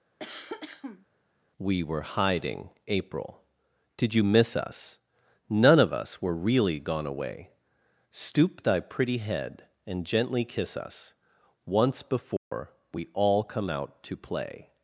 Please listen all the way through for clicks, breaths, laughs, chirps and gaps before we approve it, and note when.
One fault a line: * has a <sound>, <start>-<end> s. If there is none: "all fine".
* has a cough, 0.2-1.1 s
* has a dropout, 12.4-12.5 s